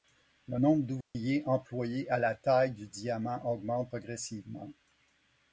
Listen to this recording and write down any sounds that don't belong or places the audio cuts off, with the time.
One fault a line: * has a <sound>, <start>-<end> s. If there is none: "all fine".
* has a dropout, 1.0-1.2 s